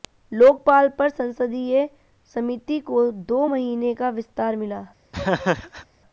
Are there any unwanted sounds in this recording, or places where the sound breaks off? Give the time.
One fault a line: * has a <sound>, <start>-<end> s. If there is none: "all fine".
* has a laugh, 5.1-5.9 s